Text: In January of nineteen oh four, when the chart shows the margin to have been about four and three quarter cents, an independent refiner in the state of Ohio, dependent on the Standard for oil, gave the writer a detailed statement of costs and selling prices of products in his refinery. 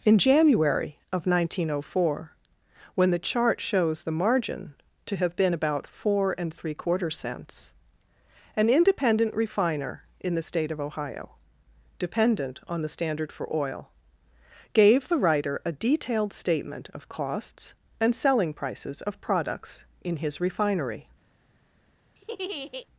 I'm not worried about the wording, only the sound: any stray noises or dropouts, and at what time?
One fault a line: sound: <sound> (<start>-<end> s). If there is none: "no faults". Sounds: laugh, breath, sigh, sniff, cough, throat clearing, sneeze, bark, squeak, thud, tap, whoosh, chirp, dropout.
sound: laugh (22.2-22.9 s)